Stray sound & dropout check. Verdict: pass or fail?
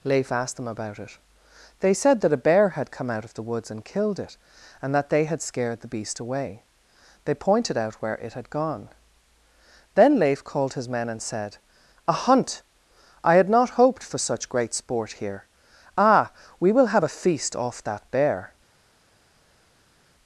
pass